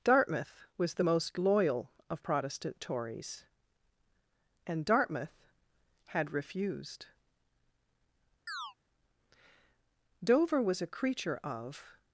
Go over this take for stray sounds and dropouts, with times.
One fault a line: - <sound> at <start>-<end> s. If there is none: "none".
- chirp at 8.5-8.7 s